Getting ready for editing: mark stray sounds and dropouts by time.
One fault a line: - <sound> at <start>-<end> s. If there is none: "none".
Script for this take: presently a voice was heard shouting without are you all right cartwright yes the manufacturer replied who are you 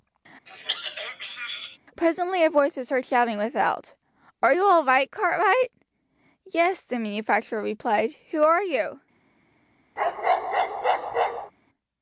- throat clearing at 0.5-1.8 s
- bark at 10.0-11.5 s